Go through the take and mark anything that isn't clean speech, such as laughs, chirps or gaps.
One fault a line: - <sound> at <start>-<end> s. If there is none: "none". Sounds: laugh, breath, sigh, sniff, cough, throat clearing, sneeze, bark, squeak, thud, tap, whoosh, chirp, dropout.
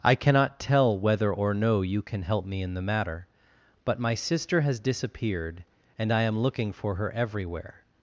none